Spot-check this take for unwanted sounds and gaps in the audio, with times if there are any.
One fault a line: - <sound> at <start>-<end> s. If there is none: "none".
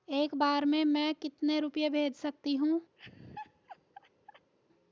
- laugh at 3.0-4.5 s